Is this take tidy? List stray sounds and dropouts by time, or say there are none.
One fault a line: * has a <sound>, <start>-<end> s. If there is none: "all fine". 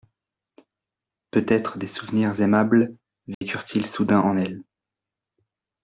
* has a dropout, 3.3-3.4 s